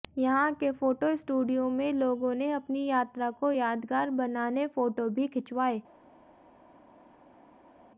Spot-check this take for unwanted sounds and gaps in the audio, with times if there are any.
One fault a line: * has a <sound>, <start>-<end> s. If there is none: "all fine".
all fine